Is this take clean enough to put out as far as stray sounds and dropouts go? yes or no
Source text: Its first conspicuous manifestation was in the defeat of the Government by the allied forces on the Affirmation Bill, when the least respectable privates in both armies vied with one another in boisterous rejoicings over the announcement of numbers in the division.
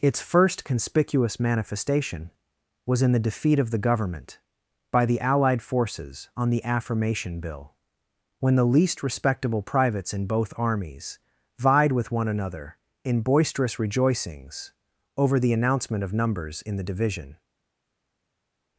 yes